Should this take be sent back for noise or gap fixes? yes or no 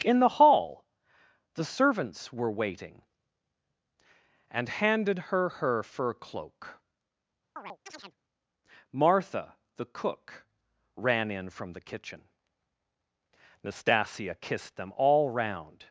yes